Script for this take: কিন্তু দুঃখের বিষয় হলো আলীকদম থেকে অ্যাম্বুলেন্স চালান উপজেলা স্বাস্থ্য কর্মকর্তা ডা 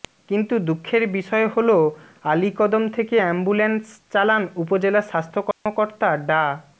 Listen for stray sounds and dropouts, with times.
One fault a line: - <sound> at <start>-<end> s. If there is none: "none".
- dropout at 5.5-5.7 s